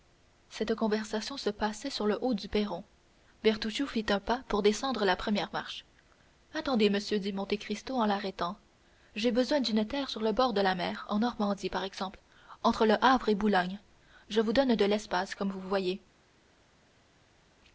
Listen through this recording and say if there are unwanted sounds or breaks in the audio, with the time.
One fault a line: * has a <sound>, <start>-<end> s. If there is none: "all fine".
all fine